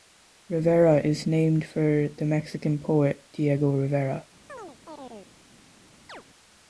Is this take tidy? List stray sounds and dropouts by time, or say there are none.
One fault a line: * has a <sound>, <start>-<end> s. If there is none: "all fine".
* has a chirp, 4.5-5.3 s
* has a chirp, 6.1-6.2 s